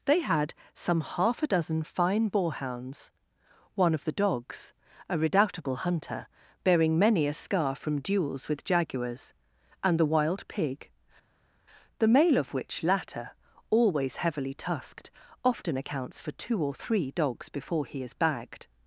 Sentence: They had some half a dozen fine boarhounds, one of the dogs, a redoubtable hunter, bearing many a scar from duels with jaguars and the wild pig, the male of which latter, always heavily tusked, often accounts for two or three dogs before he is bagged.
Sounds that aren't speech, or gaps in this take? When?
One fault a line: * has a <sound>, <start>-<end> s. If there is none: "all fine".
all fine